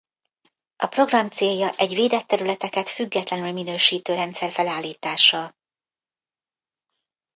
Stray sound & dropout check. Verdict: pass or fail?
pass